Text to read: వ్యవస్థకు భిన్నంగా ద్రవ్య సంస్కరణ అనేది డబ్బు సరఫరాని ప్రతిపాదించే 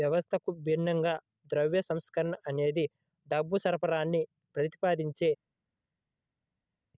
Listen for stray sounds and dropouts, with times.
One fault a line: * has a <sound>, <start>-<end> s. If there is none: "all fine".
all fine